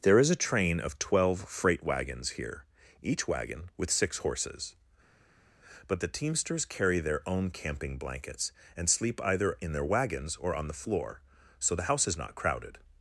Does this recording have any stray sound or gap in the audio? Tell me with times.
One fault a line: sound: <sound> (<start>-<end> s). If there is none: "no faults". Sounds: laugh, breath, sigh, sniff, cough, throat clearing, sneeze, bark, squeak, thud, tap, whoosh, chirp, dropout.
no faults